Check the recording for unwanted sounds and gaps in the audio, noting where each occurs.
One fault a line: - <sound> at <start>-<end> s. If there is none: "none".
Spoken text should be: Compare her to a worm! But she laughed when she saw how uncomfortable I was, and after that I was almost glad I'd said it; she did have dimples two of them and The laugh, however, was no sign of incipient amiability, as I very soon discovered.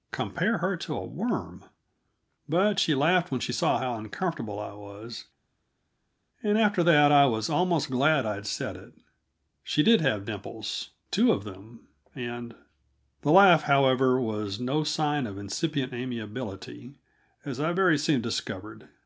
none